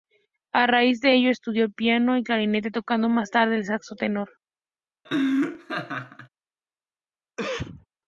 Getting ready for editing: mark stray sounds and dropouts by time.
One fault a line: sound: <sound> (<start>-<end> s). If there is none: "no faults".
sound: laugh (5.0-6.3 s)
sound: cough (7.4-7.9 s)